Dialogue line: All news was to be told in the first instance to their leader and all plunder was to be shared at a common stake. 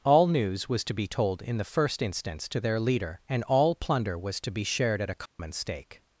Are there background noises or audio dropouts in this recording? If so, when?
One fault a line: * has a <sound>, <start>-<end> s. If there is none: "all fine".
* has a dropout, 5.3-5.4 s